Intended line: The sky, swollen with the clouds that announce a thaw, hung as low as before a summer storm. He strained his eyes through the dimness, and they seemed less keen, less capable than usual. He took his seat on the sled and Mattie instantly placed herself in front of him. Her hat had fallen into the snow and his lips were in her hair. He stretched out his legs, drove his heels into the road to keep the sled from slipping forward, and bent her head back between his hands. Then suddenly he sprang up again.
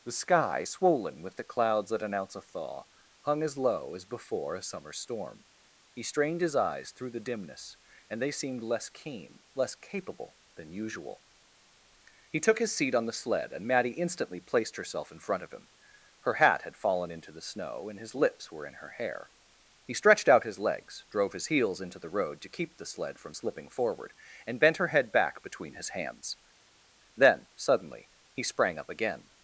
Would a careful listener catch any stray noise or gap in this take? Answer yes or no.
no